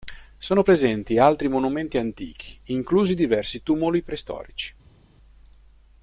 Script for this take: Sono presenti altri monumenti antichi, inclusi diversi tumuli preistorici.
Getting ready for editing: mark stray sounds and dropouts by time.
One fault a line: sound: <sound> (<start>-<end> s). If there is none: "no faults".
no faults